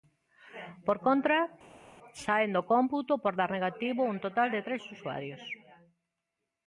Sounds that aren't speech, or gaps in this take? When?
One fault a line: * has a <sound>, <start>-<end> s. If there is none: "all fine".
all fine